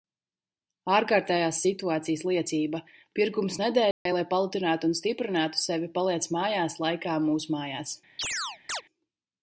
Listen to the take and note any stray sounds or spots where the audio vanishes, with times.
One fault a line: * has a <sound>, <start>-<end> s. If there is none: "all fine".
* has a dropout, 3.9-4.1 s
* has a chirp, 8.2-8.8 s